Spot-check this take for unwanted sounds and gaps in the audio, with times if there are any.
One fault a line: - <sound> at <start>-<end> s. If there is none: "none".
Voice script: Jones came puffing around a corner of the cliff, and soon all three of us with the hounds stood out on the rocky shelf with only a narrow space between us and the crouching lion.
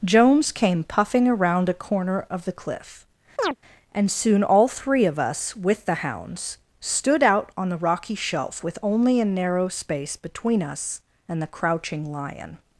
- chirp at 3.4-3.6 s